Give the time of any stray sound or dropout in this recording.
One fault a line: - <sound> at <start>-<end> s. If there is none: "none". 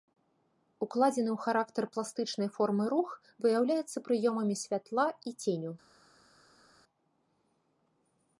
none